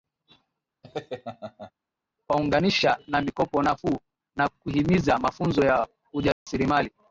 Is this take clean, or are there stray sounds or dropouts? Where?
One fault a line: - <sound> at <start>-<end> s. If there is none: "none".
- laugh at 0.8-1.7 s
- dropout at 6.3-6.5 s